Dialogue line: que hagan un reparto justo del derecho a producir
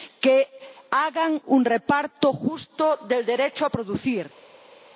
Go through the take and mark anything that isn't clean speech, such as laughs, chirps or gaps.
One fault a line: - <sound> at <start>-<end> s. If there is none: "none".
none